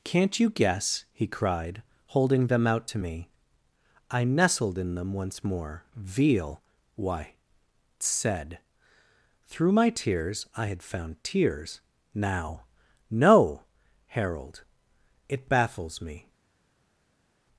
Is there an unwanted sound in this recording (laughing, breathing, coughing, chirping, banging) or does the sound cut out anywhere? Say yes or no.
no